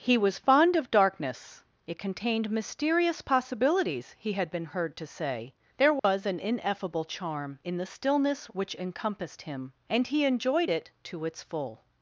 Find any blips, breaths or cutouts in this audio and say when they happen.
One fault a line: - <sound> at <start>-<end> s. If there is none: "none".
- dropout at 6.0-6.0 s